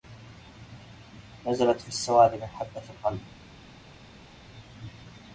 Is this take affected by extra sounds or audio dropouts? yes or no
no